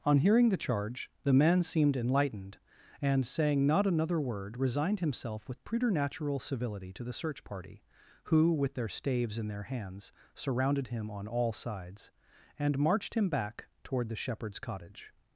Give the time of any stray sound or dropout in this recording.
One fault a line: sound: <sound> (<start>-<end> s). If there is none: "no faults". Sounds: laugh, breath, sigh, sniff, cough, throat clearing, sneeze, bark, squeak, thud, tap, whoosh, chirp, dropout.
no faults